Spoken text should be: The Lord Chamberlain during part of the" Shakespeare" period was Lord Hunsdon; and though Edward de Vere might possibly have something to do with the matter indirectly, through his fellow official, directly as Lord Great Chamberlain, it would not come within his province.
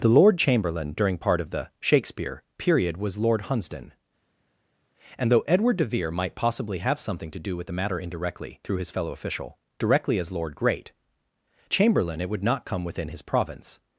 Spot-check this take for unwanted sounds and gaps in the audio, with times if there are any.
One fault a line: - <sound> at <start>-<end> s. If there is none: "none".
none